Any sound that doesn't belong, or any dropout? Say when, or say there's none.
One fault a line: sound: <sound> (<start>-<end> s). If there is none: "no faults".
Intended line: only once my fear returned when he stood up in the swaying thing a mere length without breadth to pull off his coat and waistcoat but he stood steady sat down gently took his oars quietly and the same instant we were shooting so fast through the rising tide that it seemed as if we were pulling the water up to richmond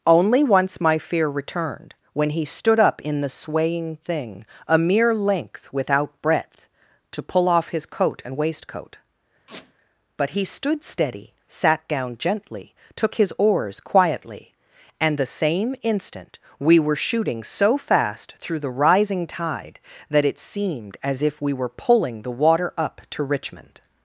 sound: squeak (9.5-9.7 s)